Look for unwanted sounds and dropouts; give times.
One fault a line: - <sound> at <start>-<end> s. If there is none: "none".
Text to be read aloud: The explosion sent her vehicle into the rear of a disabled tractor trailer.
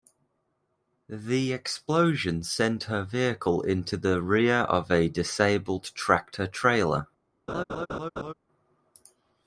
- laugh at 7.5-8.3 s